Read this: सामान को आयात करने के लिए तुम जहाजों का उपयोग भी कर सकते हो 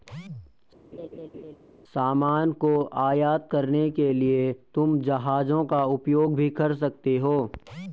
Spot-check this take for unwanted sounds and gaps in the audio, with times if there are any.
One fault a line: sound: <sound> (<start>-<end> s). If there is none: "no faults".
sound: laugh (0.9-1.6 s)